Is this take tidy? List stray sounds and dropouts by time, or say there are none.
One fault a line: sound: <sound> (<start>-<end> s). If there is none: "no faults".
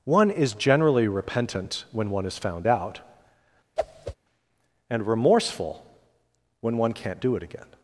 sound: whoosh (3.8-4.2 s)